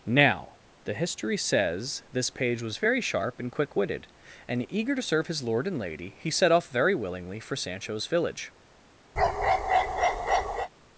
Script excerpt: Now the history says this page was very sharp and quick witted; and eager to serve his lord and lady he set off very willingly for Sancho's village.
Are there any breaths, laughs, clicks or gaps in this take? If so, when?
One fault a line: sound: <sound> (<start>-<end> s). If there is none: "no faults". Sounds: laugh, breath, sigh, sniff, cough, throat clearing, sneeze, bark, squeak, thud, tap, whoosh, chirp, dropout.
sound: bark (9.2-10.7 s)